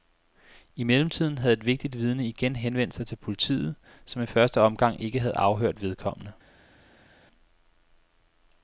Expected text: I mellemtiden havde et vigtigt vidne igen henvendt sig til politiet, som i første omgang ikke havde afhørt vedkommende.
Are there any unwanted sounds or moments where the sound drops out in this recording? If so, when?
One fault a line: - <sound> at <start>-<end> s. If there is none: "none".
none